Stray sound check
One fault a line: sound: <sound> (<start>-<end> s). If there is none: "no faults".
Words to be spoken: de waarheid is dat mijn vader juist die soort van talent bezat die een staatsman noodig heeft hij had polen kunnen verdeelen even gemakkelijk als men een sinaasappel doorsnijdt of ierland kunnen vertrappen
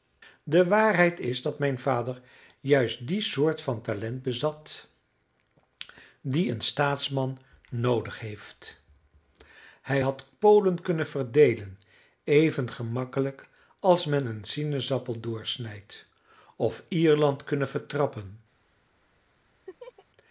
sound: laugh (19.7-20.1 s)